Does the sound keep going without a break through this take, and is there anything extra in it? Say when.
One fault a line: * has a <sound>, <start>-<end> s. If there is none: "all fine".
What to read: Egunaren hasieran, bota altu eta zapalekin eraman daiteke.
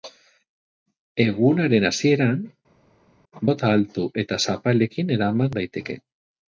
all fine